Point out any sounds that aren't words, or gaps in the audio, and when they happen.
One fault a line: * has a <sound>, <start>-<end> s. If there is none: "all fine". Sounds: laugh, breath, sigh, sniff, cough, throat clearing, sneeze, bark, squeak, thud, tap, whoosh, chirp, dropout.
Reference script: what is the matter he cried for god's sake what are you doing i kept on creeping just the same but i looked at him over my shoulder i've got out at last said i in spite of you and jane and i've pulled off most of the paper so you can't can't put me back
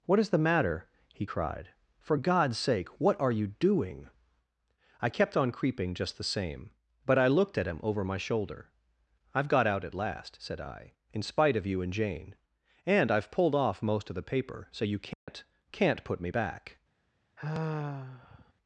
* has a dropout, 15.1-15.3 s
* has a sigh, 17.4-18.5 s